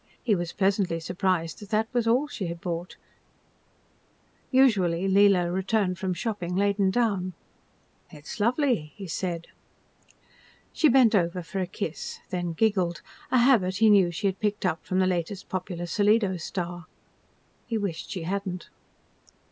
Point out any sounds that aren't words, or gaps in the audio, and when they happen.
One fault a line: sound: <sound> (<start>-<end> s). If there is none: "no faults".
no faults